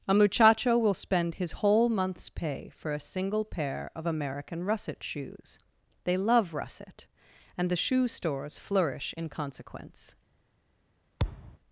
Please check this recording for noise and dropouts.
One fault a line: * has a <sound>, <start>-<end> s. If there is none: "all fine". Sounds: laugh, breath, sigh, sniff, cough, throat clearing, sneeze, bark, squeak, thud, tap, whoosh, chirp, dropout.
* has a thud, 11.2-11.6 s